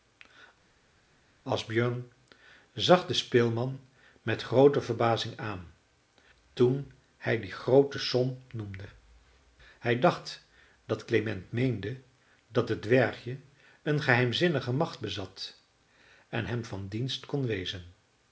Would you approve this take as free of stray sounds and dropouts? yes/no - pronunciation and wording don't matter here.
yes